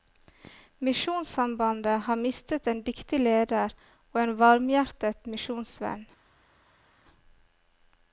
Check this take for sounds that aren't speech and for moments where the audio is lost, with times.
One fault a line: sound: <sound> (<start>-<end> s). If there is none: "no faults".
no faults